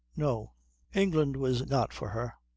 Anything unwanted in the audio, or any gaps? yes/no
no